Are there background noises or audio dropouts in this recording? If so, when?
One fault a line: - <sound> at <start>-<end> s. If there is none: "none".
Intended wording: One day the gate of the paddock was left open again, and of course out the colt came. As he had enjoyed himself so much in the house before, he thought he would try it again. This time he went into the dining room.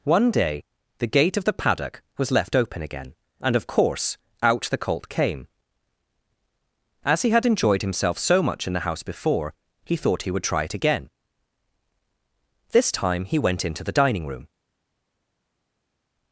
none